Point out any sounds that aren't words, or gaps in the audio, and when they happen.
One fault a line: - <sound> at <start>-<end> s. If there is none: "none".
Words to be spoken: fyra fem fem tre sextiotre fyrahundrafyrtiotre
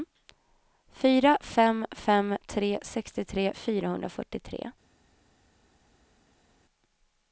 none